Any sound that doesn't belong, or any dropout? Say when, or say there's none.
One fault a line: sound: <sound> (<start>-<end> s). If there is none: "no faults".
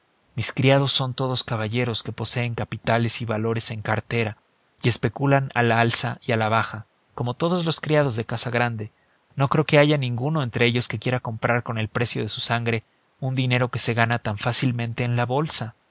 no faults